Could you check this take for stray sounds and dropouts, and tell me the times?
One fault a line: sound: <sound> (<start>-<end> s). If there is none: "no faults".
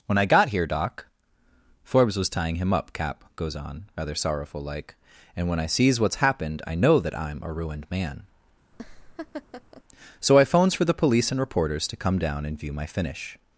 sound: laugh (8.7-9.8 s)